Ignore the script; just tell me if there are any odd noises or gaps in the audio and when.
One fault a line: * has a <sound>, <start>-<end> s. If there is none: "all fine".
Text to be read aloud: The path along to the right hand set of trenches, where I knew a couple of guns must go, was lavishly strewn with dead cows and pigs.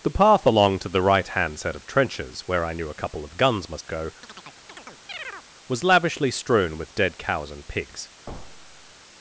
* has a chirp, 4.2-5.5 s
* has a thud, 8.3-8.9 s